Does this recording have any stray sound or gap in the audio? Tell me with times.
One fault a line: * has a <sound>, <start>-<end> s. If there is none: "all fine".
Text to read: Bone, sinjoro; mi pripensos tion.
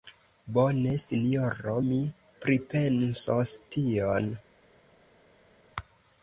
all fine